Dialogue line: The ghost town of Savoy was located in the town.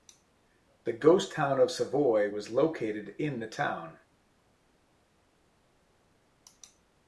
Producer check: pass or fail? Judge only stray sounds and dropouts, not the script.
pass